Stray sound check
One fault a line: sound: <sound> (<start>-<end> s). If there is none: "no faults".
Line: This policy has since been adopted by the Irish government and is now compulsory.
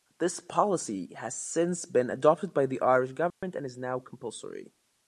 sound: dropout (3.3-3.4 s)